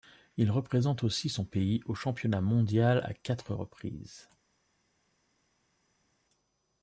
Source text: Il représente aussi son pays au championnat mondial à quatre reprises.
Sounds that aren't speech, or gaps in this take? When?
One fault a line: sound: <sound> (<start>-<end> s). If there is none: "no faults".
no faults